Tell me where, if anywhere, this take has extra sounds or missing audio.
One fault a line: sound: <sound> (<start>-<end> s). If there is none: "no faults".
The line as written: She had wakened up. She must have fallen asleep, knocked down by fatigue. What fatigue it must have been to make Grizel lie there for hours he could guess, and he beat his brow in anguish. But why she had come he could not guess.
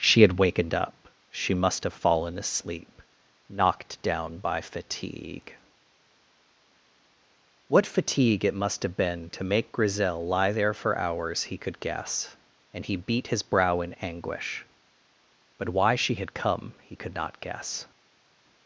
no faults